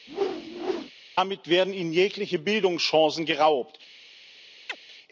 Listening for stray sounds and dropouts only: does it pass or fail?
fail